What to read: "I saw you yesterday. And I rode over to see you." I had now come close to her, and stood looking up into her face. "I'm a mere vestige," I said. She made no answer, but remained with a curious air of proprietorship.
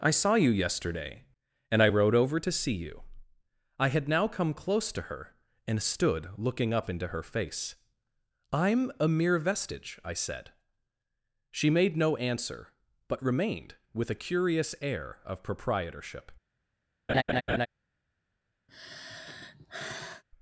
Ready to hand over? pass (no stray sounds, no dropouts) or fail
fail